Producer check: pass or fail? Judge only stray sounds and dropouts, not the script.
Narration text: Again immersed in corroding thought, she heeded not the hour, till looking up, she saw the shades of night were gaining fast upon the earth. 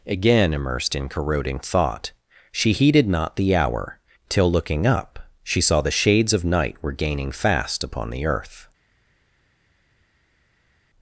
pass